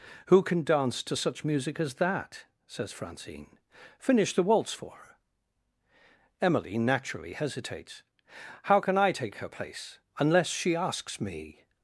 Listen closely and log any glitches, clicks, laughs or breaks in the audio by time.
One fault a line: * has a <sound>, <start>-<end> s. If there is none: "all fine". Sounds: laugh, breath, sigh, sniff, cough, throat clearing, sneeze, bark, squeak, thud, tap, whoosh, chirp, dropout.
all fine